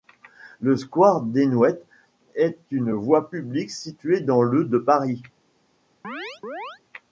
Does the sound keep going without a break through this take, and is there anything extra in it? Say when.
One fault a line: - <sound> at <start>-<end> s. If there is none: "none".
- chirp at 6.0-6.8 s